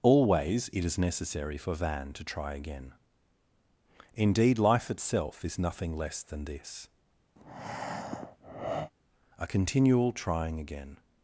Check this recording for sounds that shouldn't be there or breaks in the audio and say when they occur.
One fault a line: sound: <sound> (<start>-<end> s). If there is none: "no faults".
sound: breath (7.4-8.9 s)